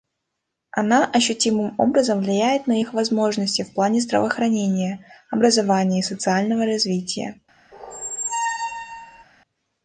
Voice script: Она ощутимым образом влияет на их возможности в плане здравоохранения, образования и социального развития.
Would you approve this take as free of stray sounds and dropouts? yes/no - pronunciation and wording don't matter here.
no